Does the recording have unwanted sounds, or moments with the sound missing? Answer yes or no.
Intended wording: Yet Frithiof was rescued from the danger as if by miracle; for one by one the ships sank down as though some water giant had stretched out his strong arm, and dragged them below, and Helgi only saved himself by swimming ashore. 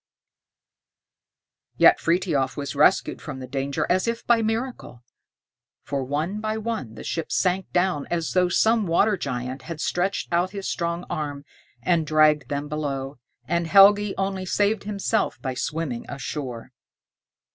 no